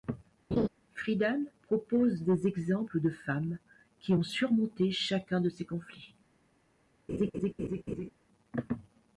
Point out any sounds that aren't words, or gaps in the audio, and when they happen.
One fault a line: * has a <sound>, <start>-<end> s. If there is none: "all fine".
* has a laugh, 0.5-0.7 s
* has a laugh, 7.1-8.1 s